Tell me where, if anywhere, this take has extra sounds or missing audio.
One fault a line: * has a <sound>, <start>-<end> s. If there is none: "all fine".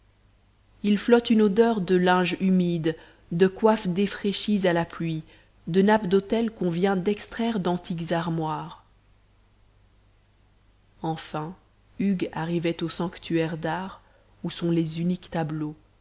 all fine